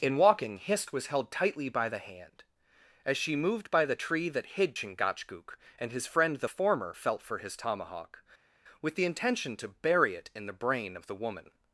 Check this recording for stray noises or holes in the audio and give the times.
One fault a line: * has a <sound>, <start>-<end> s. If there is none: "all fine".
all fine